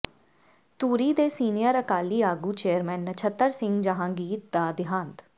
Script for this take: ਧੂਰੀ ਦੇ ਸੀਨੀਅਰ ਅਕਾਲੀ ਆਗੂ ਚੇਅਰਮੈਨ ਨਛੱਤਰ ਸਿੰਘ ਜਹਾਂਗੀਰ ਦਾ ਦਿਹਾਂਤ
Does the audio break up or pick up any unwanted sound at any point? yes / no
no